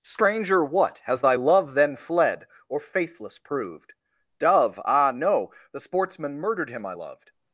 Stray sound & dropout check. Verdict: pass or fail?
pass